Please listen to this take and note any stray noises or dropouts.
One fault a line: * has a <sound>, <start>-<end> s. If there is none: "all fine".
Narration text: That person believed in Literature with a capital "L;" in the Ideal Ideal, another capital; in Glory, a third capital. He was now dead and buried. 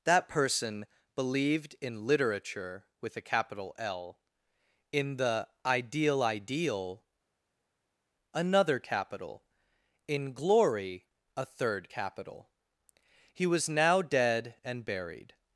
all fine